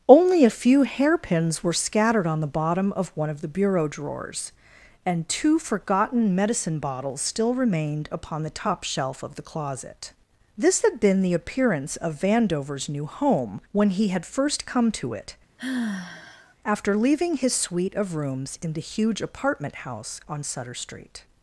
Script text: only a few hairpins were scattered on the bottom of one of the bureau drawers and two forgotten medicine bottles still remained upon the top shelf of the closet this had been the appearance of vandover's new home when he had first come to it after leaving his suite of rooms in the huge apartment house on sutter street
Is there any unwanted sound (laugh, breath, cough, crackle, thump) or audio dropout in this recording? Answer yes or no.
yes